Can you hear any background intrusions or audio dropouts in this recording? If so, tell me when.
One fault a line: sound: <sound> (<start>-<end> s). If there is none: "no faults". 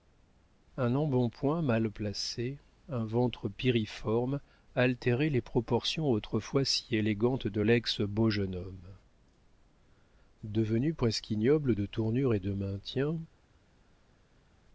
no faults